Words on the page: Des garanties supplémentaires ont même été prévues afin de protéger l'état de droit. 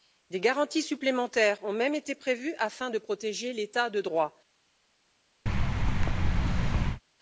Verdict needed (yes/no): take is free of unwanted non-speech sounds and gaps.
no